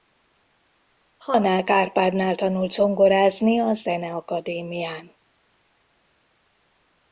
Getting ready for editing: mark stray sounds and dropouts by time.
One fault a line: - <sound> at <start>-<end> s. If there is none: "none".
none